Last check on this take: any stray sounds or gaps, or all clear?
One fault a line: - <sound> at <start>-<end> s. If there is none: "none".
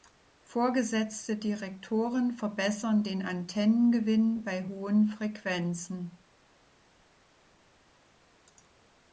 none